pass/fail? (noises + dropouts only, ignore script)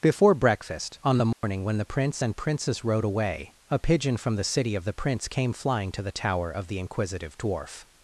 fail